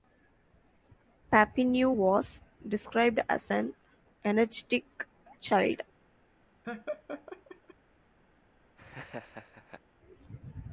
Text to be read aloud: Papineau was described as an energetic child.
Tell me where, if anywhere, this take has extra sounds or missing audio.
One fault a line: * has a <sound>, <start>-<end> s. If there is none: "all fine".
* has a laugh, 6.6-7.7 s
* has a laugh, 8.8-9.8 s